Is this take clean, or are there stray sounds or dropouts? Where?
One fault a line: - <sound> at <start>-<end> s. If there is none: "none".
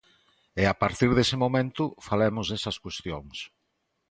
none